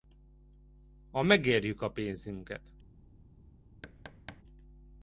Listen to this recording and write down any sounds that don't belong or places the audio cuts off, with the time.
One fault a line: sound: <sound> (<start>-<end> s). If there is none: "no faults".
sound: thud (3.8-4.4 s)